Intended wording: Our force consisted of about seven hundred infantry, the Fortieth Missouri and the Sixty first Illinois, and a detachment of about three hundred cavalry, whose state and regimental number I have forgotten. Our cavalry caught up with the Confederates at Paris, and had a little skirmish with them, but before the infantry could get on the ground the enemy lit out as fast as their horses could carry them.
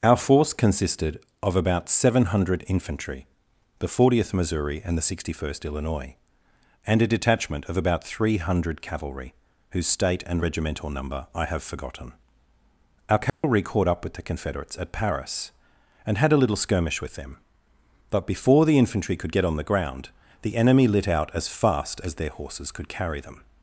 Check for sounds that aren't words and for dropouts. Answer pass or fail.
fail